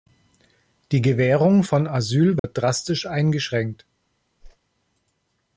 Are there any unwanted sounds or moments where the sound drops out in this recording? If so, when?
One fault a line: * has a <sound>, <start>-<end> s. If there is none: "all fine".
* has a dropout, 2.4-2.4 s
* has a whoosh, 4.4-4.6 s